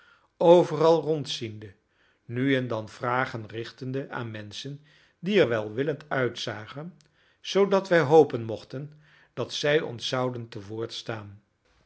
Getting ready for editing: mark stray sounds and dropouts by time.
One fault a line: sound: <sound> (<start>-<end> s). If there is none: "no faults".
no faults